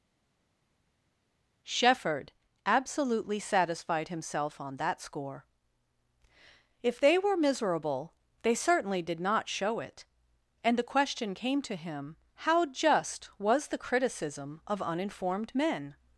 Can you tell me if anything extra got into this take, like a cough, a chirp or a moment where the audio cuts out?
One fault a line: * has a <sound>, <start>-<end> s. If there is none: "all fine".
all fine